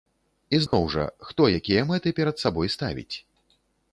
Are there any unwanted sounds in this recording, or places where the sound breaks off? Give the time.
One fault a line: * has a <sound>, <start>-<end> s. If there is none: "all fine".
* has a dropout, 0.7-0.7 s